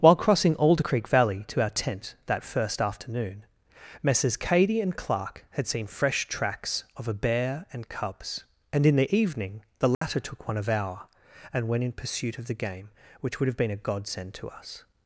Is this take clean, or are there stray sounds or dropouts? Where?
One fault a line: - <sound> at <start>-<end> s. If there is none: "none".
- dropout at 9.9-10.0 s